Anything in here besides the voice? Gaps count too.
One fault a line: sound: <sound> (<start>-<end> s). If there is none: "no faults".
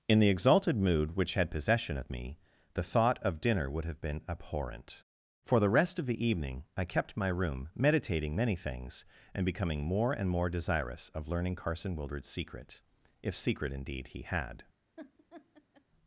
sound: laugh (15.0-15.8 s)